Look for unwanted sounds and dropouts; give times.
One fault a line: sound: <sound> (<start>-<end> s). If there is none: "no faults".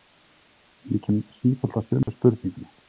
sound: dropout (2.0-2.1 s)